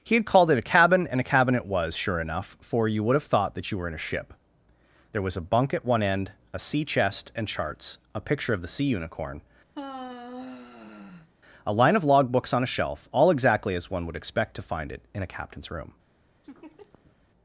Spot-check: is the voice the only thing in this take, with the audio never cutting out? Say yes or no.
no